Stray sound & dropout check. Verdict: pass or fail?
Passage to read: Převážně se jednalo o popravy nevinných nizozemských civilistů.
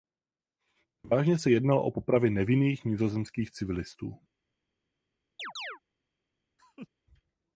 fail